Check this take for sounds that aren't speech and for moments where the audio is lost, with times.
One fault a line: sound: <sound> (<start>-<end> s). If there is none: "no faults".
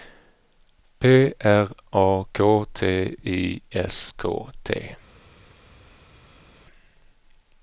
no faults